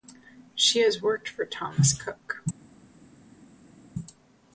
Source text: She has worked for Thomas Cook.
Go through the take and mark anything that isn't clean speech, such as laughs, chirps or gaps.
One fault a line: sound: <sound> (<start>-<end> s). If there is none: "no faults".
no faults